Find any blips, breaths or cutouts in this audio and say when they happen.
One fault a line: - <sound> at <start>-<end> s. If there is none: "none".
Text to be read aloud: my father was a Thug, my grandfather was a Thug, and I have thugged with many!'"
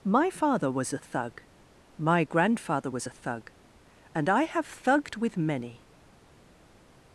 none